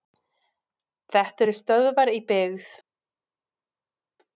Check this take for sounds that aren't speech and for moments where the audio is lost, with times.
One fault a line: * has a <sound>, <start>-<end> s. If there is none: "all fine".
all fine